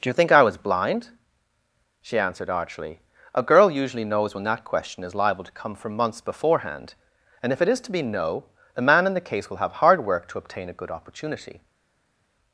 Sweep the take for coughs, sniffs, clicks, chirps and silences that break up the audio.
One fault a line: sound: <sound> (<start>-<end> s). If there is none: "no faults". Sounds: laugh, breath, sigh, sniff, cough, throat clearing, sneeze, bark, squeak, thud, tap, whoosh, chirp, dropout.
no faults